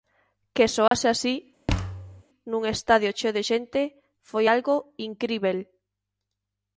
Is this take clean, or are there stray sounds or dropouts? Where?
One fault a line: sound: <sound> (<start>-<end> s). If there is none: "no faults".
sound: dropout (0.9-0.9 s)
sound: thud (1.7-2.2 s)